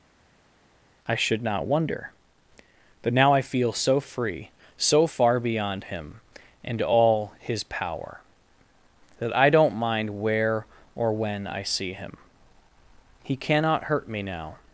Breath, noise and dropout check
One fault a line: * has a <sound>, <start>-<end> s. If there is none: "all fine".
all fine